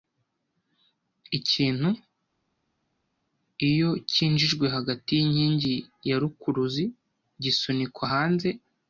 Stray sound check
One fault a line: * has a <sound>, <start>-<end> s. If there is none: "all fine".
all fine